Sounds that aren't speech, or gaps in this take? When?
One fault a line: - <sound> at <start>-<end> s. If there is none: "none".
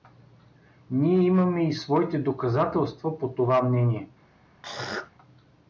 - throat clearing at 4.6-5.1 s